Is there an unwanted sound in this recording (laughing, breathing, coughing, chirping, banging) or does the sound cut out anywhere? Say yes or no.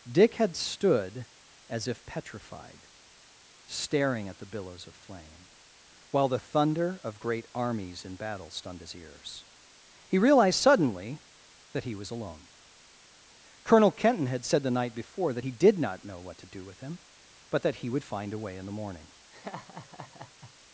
yes